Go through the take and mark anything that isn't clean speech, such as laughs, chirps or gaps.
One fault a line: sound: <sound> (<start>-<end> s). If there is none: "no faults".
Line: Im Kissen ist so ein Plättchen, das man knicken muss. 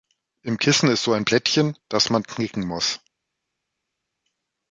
no faults